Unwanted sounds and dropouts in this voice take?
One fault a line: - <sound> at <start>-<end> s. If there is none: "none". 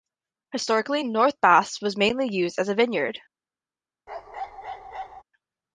- bark at 4.1-5.2 s